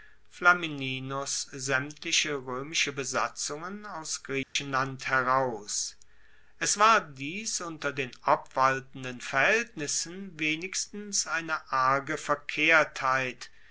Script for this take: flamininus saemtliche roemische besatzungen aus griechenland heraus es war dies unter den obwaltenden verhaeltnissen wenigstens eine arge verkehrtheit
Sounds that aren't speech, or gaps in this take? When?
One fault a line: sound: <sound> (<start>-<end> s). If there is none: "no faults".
sound: dropout (4.4-4.6 s)